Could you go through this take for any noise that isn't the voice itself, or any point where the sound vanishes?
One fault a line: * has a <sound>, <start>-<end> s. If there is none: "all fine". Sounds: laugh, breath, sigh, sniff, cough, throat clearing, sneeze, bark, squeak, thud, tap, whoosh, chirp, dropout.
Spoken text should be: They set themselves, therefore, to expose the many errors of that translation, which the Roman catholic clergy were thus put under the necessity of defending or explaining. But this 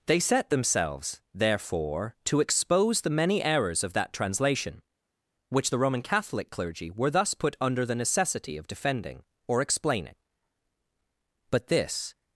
all fine